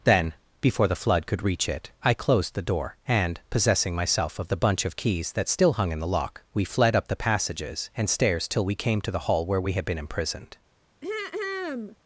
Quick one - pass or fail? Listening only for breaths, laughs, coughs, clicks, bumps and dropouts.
fail